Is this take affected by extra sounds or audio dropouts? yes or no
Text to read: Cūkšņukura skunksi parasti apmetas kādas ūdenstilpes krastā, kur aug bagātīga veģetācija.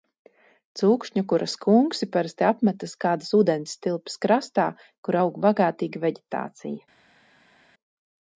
no